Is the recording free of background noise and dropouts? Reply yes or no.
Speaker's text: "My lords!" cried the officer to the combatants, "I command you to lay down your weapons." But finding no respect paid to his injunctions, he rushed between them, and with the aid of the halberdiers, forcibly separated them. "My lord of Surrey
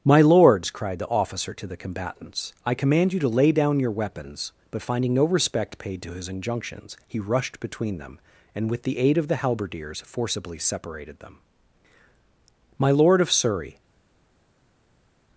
yes